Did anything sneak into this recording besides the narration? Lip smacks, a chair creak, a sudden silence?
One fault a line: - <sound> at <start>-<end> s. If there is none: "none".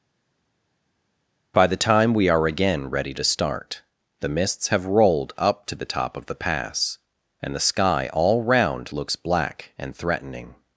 none